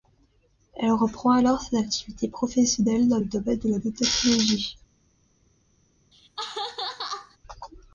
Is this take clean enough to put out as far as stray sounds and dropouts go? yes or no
no